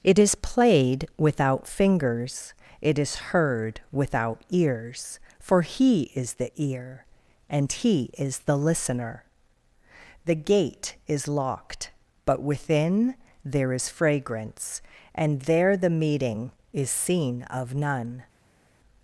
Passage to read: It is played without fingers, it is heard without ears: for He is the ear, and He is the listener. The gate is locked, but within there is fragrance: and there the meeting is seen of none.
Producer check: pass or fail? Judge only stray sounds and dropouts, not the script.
pass